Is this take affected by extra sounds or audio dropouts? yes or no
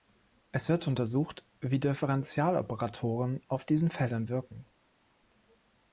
no